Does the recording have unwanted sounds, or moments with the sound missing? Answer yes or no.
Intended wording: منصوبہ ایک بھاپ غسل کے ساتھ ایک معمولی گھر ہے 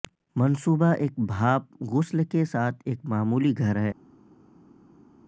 no